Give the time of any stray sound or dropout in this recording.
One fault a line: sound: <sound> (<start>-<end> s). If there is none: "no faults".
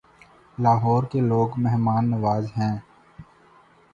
no faults